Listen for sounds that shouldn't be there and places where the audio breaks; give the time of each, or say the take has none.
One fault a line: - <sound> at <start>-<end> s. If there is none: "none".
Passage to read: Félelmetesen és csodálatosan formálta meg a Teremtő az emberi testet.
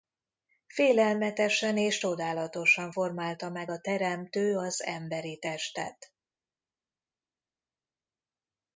none